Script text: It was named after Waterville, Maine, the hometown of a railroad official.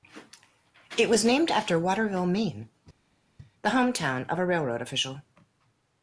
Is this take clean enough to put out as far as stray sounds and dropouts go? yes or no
yes